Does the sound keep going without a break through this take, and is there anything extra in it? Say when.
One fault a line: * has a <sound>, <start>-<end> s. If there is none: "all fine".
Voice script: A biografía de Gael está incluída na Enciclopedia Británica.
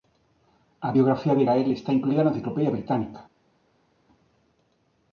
all fine